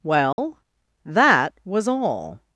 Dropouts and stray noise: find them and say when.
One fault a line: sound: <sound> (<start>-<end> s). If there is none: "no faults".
sound: dropout (0.3-0.4 s)